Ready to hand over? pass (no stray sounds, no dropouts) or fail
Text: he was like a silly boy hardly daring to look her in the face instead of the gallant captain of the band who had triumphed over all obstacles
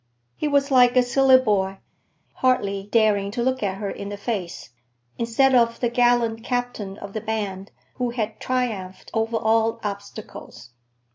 pass